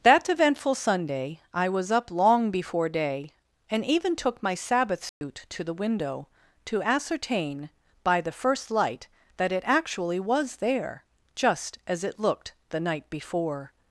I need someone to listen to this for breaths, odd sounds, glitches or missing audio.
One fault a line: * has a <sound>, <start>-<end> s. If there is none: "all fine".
* has a dropout, 5.1-5.2 s